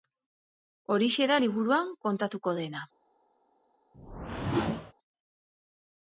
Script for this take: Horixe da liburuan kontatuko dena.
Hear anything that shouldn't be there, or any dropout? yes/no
yes